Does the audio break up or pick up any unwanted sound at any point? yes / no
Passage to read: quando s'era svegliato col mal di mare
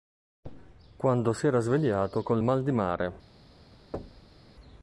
yes